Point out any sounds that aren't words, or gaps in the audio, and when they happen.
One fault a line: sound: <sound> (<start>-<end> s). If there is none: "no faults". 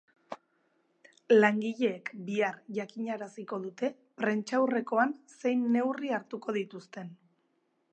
no faults